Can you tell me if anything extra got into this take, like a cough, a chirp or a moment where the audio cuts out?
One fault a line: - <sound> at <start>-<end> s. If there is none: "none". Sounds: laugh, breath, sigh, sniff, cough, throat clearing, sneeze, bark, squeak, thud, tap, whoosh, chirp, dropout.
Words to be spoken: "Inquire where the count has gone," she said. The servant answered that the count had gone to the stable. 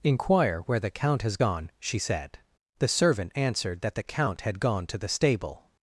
none